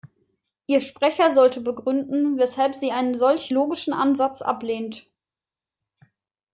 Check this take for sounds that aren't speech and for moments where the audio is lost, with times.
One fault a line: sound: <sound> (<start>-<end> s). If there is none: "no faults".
no faults